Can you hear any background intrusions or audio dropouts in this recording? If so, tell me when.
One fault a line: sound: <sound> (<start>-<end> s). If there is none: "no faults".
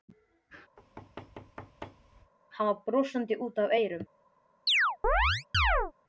sound: thud (0.8-2.3 s)
sound: chirp (4.7-5.9 s)